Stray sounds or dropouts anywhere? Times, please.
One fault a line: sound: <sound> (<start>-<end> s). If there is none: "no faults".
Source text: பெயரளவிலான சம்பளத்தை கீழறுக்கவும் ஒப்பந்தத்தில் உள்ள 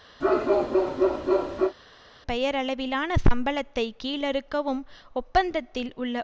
sound: bark (0.2-1.7 s)